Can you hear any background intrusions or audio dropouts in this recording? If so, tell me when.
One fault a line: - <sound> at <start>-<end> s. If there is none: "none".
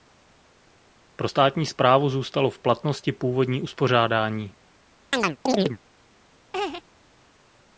- chirp at 5.1-5.8 s
- laugh at 6.5-6.8 s